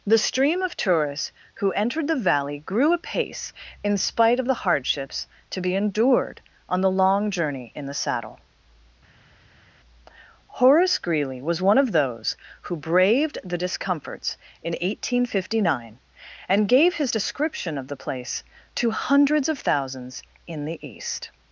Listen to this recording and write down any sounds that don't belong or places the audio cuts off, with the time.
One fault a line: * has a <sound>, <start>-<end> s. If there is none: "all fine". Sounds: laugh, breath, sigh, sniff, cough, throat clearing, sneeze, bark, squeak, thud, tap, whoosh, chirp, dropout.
all fine